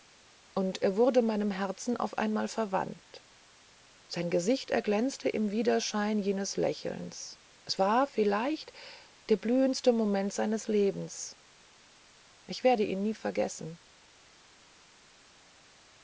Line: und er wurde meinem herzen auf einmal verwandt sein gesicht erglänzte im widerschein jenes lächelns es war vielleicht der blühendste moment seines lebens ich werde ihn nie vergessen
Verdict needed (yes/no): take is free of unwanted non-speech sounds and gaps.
yes